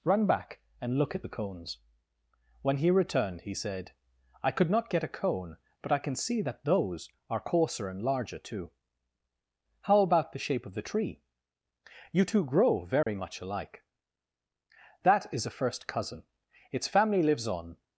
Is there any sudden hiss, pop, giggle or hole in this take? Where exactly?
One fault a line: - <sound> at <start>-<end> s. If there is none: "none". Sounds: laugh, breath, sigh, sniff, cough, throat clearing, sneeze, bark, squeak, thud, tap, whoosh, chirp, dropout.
- dropout at 13.0-13.1 s